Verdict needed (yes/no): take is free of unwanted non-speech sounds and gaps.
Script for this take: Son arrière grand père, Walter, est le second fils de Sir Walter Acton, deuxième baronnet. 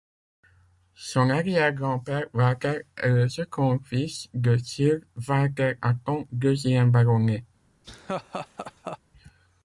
no